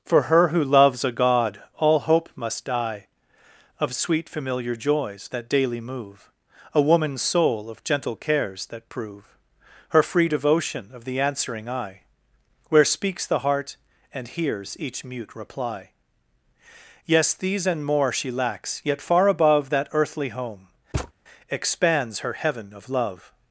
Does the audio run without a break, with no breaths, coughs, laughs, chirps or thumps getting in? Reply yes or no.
no